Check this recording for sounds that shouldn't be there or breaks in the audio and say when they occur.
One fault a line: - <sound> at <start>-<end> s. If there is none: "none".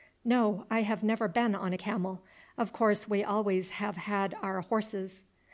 none